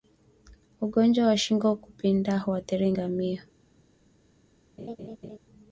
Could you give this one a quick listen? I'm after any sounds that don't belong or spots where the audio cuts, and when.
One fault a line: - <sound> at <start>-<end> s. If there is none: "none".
- laugh at 4.8-5.4 s